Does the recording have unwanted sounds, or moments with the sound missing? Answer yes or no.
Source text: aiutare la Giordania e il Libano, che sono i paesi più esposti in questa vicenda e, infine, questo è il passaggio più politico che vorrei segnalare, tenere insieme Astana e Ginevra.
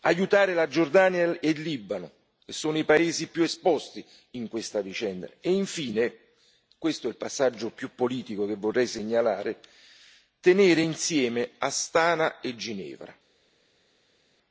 no